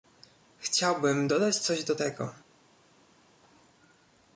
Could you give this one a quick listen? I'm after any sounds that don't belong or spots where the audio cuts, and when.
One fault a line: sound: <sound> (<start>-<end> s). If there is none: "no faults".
no faults